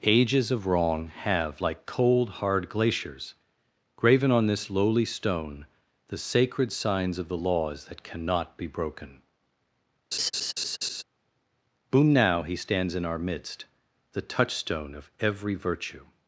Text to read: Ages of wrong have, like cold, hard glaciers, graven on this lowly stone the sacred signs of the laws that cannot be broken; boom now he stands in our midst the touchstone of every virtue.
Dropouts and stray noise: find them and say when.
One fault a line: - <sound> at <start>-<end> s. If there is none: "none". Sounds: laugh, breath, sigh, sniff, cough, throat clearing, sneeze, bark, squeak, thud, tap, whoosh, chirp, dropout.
- laugh at 10.1-11.0 s